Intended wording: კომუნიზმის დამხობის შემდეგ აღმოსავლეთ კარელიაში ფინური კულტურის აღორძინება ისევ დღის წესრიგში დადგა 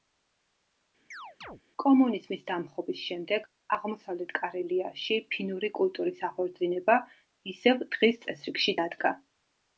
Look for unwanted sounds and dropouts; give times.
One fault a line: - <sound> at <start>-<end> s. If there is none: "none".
- chirp at 1.1-1.6 s